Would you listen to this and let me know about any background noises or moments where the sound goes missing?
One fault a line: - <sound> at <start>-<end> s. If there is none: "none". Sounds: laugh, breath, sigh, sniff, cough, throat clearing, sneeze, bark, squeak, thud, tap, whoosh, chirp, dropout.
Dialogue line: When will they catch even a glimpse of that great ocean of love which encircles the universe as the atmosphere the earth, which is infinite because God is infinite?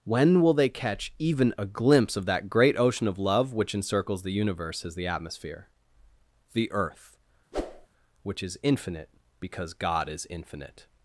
- whoosh at 7.5-7.9 s